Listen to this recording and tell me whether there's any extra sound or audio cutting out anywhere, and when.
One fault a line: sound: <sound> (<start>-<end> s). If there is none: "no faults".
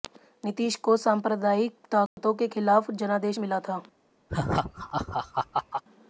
sound: dropout (2.1-2.2 s)
sound: laugh (4.3-5.8 s)